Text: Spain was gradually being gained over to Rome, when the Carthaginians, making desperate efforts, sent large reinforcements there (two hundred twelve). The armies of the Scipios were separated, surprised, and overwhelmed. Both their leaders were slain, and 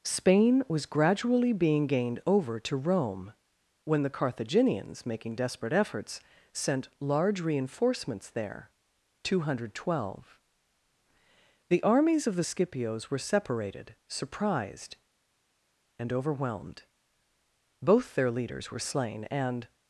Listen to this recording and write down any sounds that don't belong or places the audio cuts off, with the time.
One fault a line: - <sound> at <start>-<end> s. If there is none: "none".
none